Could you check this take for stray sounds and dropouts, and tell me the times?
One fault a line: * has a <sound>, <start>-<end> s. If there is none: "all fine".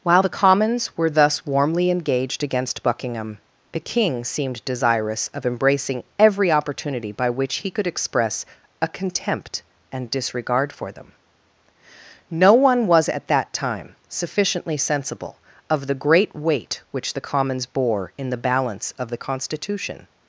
all fine